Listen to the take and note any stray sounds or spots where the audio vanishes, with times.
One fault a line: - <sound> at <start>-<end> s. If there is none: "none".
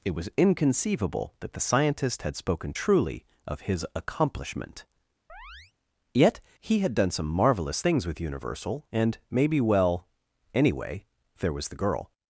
- chirp at 5.3-5.7 s